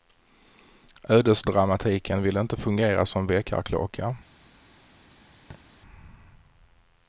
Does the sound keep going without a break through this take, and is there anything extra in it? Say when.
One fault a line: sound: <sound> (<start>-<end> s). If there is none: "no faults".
sound: thud (5.5-5.6 s)